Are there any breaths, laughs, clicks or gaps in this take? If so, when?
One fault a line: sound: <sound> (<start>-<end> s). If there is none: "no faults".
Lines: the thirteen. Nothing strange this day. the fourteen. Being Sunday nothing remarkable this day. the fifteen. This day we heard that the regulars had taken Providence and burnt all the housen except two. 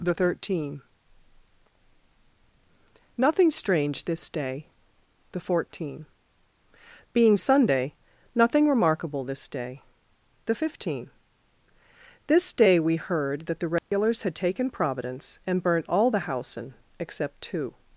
sound: dropout (13.8-13.9 s)